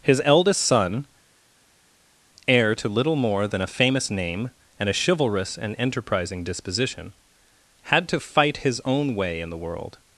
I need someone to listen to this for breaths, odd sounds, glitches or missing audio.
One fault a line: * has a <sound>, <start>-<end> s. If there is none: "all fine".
all fine